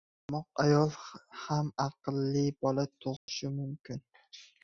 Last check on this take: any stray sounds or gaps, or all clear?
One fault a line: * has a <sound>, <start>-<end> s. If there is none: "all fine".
* has a dropout, 3.2-3.3 s